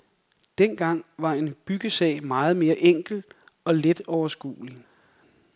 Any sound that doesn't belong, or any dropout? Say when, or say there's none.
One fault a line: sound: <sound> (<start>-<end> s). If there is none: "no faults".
no faults